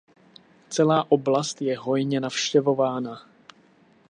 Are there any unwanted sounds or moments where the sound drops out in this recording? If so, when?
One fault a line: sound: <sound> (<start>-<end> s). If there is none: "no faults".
no faults